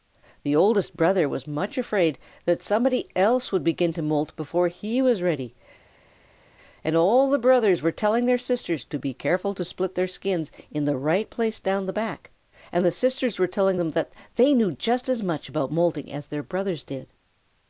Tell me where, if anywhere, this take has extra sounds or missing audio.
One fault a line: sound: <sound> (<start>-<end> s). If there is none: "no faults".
no faults